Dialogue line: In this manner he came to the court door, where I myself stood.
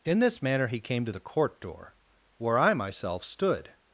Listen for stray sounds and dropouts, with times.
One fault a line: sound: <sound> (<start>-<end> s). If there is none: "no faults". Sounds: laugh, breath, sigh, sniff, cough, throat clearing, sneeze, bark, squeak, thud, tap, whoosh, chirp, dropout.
no faults